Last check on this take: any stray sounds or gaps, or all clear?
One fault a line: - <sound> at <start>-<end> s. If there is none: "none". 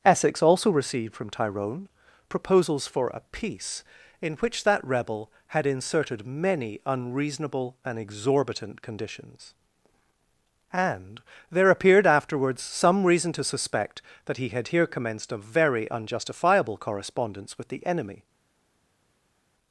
none